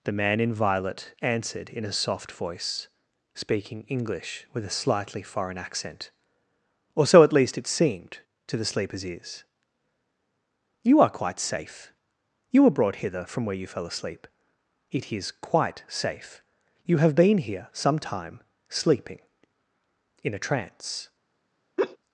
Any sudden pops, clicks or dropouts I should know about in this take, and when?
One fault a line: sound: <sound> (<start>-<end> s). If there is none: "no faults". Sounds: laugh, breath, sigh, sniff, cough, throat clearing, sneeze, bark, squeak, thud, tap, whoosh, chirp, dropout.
sound: laugh (21.8-22.0 s)